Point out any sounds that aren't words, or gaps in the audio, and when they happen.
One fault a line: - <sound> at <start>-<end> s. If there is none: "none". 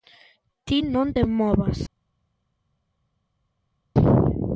none